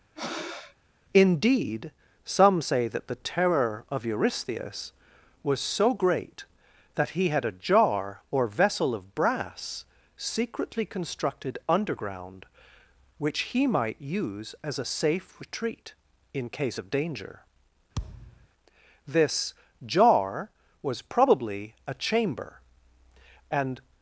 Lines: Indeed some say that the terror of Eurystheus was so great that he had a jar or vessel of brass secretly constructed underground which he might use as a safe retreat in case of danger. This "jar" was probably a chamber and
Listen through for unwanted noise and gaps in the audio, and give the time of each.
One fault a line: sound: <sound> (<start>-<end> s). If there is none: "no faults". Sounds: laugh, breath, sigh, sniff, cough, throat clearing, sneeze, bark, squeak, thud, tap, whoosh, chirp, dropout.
sound: breath (0.2-0.8 s)
sound: thud (18.0-18.5 s)